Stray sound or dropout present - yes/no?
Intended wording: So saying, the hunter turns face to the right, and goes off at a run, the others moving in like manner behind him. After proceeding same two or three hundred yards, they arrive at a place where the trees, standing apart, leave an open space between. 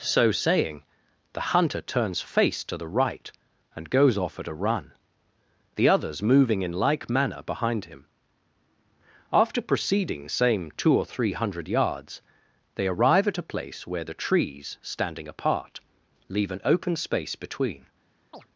yes